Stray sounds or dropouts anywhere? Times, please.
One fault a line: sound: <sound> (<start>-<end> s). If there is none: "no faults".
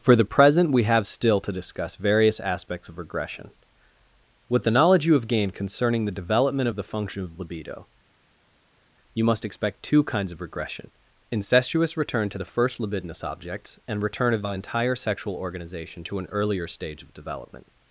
no faults